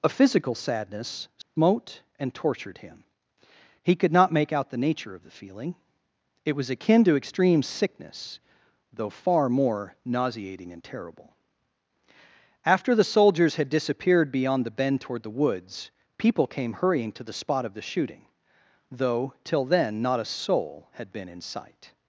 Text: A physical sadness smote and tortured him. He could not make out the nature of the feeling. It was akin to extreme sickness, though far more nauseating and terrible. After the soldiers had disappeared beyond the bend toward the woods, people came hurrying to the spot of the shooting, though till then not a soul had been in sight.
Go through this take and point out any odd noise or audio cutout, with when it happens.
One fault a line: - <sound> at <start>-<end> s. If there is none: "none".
- dropout at 1.4-1.6 s